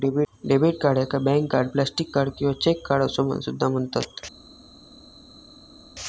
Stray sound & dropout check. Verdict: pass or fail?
pass